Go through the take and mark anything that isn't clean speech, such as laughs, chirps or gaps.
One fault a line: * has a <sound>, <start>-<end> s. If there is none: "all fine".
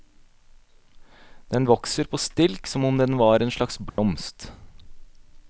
* has a dropout, 3.9-4.0 s